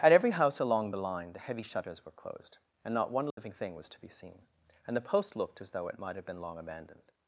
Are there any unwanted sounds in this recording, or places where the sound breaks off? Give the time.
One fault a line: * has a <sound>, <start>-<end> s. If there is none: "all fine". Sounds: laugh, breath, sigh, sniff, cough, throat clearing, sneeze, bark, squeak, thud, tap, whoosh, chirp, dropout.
* has a dropout, 3.3-3.4 s